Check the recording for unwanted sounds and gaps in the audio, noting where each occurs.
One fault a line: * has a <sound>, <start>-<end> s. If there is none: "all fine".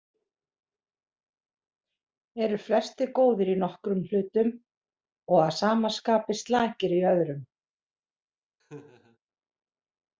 * has a laugh, 8.6-9.2 s